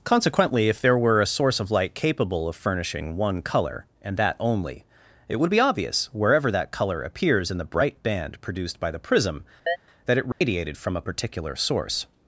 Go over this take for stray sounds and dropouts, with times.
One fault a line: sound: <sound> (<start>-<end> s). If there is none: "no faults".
sound: chirp (9.7-9.8 s)
sound: dropout (10.3-10.4 s)